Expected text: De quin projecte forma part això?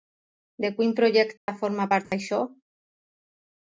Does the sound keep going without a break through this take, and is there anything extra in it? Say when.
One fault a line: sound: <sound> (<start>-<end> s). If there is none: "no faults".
sound: dropout (1.4-1.5 s)
sound: dropout (2.0-2.1 s)